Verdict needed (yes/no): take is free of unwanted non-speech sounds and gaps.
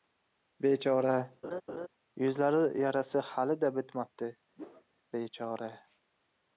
no